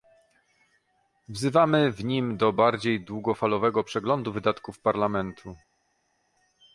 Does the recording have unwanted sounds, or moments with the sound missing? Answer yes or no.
no